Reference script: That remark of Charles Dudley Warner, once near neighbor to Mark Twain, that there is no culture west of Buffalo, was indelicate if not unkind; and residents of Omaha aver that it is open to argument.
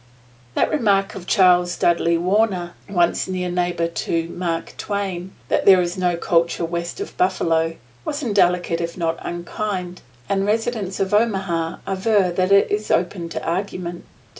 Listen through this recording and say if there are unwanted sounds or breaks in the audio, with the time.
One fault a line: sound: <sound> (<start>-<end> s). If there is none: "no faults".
no faults